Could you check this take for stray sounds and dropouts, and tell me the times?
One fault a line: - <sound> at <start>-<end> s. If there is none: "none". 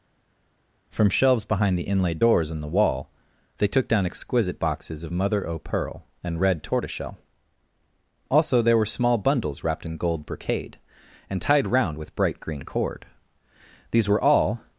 none